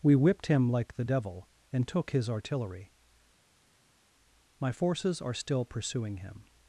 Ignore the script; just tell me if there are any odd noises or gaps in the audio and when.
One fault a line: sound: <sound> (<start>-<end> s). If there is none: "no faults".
no faults